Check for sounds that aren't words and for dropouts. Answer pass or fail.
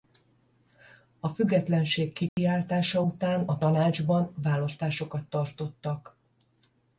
fail